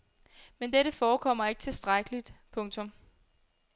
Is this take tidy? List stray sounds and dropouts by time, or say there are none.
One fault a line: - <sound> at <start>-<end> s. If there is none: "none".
none